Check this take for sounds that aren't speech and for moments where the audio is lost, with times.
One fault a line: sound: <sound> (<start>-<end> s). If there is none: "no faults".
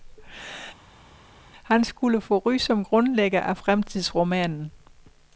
no faults